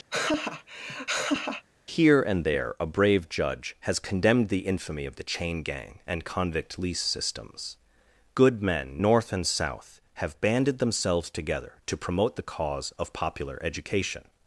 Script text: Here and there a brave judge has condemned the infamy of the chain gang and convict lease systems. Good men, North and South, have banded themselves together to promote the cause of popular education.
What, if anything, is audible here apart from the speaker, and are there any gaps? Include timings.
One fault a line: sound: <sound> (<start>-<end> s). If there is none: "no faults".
sound: laugh (0.1-1.6 s)